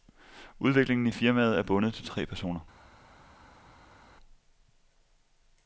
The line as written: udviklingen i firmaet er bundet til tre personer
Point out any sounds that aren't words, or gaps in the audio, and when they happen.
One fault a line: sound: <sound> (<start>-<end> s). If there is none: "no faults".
no faults